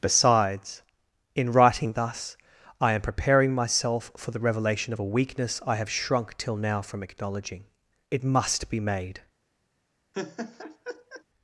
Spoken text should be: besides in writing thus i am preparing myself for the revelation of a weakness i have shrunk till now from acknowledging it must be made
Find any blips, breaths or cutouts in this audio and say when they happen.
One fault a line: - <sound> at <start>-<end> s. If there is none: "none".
- laugh at 10.1-11.2 s